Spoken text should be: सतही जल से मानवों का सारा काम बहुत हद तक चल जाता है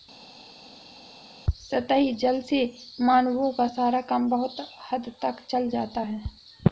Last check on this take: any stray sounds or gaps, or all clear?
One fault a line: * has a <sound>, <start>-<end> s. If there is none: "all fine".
all fine